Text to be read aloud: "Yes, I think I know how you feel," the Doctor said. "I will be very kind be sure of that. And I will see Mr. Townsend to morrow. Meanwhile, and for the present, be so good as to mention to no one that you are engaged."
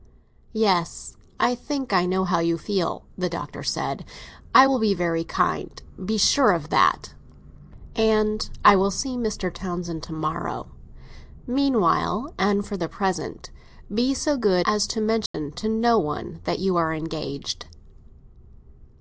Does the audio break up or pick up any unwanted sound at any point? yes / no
yes